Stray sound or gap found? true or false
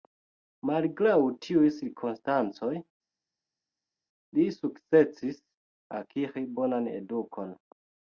false